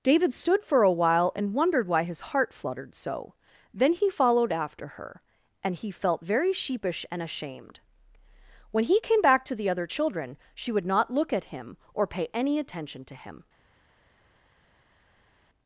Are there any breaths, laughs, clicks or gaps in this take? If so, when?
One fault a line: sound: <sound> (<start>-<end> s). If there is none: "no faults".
no faults